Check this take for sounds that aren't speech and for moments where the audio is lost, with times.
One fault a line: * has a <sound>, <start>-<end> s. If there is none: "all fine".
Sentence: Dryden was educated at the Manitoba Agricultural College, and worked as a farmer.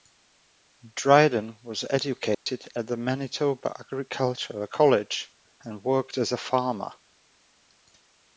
* has a dropout, 2.3-2.5 s